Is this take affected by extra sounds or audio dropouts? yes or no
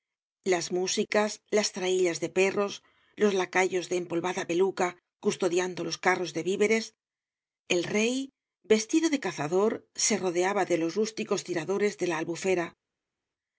no